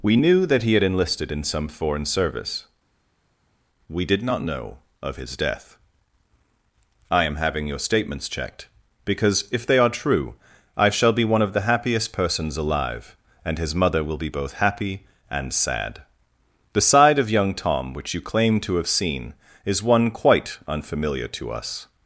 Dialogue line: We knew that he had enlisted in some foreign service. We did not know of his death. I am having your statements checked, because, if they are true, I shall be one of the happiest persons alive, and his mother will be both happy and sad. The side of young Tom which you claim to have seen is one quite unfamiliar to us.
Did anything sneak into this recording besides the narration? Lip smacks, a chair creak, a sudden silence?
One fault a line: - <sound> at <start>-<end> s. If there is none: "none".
none